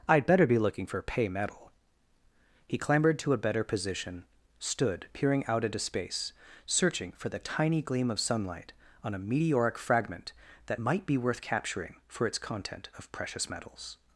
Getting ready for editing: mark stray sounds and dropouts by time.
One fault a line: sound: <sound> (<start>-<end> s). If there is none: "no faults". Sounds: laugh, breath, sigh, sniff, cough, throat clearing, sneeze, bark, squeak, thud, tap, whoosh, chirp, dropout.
no faults